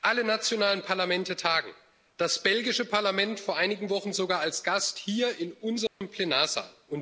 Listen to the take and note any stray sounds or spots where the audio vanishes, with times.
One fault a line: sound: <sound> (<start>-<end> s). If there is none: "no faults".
sound: dropout (5.9-6.0 s)